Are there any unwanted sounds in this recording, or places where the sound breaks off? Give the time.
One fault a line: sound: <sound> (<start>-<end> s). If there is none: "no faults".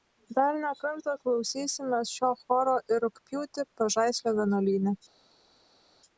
no faults